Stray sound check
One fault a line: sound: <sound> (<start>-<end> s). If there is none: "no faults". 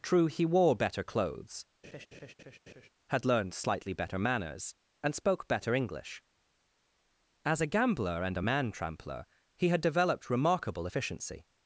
sound: laugh (1.8-2.9 s)